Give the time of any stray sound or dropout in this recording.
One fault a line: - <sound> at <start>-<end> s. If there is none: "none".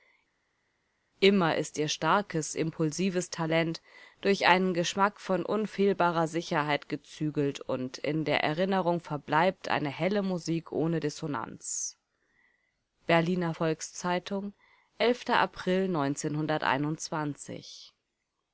none